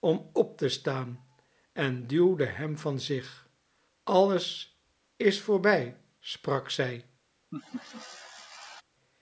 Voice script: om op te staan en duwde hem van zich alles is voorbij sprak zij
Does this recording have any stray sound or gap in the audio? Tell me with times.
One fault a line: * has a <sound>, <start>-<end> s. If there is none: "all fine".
* has a laugh, 7.5-8.8 s